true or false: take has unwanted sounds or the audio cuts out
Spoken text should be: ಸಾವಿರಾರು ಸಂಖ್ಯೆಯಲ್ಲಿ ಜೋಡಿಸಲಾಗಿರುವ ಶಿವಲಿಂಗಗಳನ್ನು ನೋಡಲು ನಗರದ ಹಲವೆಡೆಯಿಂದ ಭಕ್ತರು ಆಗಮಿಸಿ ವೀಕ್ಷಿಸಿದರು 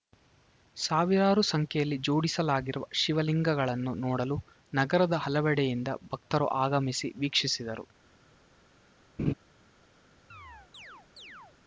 true